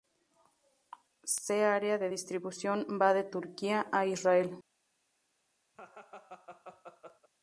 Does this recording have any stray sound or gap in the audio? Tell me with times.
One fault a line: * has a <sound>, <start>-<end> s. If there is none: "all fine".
* has a laugh, 5.7-7.3 s